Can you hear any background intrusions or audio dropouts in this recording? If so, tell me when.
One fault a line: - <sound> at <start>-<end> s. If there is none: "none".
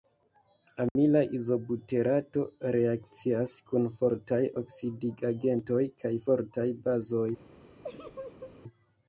- dropout at 0.9-1.0 s
- laugh at 7.8-8.6 s